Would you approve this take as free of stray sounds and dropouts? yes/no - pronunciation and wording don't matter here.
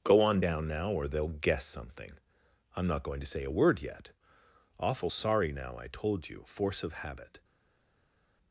yes